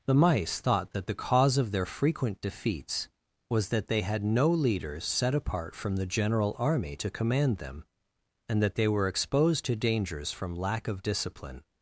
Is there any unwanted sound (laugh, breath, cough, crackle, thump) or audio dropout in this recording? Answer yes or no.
no